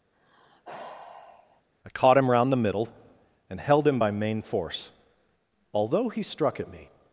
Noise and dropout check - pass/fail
fail